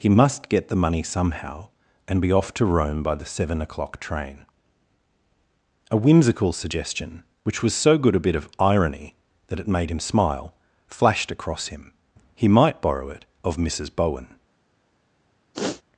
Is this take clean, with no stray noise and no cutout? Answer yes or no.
no